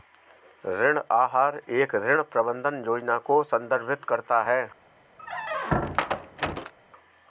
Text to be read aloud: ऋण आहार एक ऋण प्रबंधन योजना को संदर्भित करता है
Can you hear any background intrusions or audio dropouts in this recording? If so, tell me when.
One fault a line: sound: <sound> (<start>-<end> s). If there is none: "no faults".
sound: squeak (5.2-6.7 s)